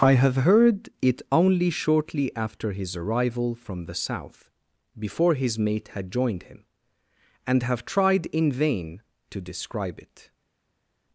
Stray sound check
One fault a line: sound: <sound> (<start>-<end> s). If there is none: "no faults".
no faults